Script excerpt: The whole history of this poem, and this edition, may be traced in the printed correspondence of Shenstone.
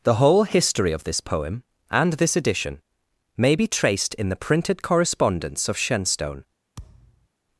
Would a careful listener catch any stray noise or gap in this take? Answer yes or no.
yes